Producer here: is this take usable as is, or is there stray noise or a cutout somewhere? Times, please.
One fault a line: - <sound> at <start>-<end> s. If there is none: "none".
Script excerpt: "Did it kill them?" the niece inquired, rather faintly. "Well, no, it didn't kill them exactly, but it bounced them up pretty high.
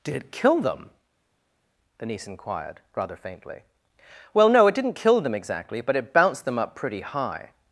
none